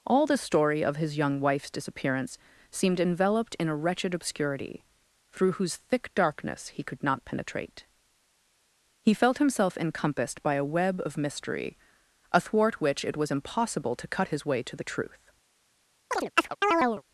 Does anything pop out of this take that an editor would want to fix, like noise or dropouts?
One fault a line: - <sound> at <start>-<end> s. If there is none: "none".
- chirp at 16.1-17.0 s